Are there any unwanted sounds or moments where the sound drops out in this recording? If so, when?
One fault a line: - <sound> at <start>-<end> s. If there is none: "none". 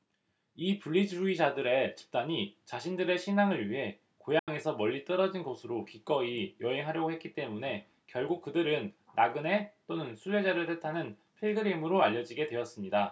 - dropout at 4.4-4.5 s